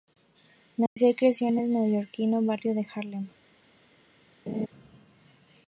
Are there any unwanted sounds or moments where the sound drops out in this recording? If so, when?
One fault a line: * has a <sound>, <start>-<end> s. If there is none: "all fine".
* has a dropout, 0.9-1.0 s
* has a laugh, 4.5-4.7 s